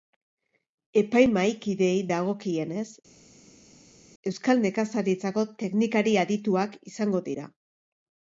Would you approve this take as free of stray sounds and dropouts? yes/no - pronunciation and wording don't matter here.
yes